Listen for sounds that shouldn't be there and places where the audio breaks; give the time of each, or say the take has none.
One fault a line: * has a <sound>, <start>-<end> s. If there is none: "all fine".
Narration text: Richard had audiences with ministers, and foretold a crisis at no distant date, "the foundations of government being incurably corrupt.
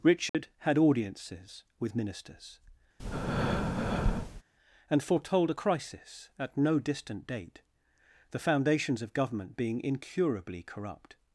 * has a dropout, 0.3-0.3 s
* has a breath, 3.0-4.4 s